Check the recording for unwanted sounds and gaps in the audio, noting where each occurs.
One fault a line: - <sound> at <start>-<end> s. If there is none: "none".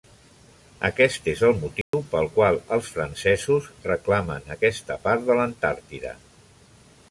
- dropout at 1.8-1.9 s